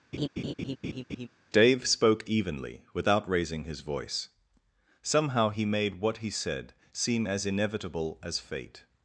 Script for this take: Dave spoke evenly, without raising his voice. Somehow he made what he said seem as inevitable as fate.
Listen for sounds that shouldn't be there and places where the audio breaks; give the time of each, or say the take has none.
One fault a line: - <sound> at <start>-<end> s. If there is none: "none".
- laugh at 0.1-1.3 s